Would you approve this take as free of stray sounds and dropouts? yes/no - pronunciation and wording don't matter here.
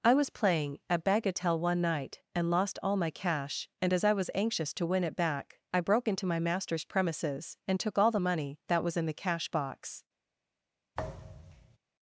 no